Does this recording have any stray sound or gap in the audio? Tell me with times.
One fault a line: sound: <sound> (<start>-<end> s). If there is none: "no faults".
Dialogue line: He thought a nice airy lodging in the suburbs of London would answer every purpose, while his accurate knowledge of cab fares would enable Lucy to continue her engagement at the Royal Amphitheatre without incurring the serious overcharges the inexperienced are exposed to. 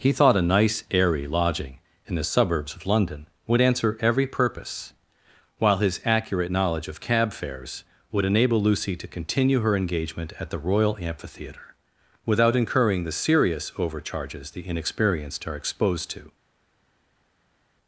no faults